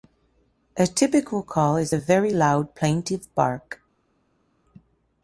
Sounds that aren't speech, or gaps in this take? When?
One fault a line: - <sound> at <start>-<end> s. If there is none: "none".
none